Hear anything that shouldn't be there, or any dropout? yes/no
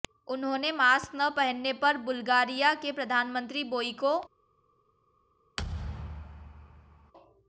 yes